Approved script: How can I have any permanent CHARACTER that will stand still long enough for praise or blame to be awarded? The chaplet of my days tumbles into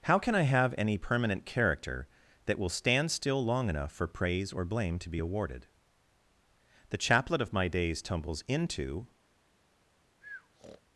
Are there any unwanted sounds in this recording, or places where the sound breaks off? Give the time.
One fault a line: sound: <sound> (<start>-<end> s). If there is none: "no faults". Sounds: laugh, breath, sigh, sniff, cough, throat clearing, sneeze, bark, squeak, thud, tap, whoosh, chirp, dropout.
sound: breath (10.2-10.8 s)